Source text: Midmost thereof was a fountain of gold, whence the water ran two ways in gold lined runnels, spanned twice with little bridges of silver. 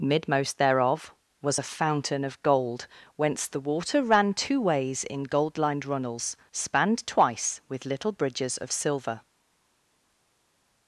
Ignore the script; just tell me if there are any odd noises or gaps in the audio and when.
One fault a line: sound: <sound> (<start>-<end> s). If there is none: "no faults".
no faults